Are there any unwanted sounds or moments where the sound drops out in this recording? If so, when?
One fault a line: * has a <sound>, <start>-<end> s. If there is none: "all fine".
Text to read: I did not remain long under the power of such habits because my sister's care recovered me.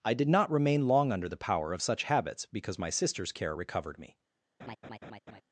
* has a laugh, 4.6-5.4 s